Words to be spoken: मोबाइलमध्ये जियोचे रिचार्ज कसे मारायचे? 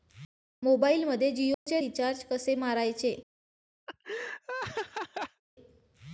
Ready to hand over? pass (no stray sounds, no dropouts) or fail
fail